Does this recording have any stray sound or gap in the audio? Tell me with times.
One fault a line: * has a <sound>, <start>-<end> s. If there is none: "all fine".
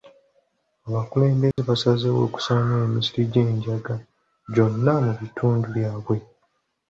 * has a dropout, 1.5-1.6 s